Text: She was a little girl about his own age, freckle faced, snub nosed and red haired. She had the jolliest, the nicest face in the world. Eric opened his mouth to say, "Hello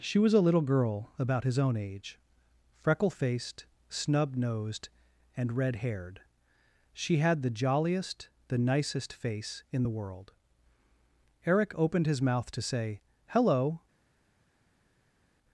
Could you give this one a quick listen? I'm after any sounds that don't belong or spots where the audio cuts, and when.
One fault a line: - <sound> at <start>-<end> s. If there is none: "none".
none